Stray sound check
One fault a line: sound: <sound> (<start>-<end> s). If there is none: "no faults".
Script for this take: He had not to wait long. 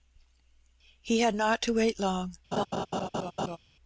sound: laugh (2.5-3.6 s)